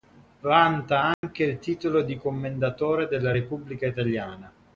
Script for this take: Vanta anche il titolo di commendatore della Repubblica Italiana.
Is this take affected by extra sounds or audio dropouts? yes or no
yes